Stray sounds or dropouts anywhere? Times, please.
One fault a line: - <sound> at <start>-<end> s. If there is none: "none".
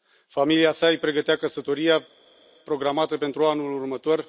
none